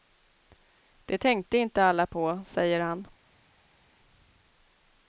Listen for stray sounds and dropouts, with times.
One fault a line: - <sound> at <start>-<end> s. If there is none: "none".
none